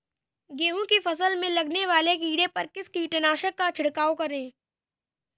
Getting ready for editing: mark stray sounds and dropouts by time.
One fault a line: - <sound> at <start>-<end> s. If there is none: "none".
none